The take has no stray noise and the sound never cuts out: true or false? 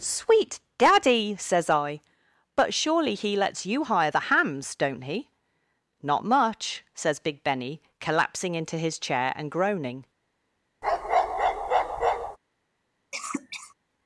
false